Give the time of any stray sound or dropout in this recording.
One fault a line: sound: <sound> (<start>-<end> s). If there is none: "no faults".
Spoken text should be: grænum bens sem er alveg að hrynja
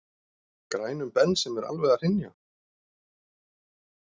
no faults